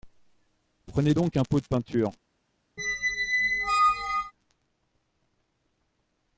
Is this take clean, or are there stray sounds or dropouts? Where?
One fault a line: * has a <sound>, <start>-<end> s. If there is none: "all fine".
* has a squeak, 2.8-4.3 s